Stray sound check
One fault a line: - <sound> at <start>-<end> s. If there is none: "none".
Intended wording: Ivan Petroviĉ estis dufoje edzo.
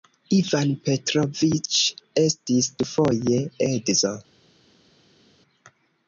none